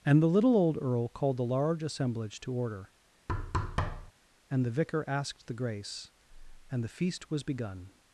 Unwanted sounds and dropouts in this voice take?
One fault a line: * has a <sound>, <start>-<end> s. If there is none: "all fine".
* has a thud, 3.3-4.1 s